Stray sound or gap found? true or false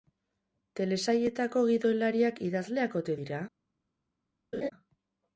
true